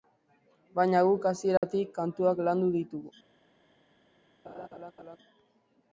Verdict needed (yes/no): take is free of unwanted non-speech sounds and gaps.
no